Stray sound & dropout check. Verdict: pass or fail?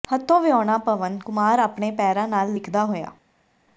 pass